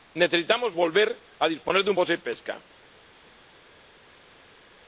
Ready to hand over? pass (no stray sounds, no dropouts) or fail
pass